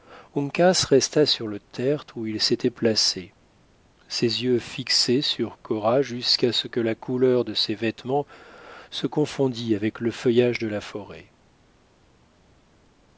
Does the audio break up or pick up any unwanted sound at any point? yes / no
no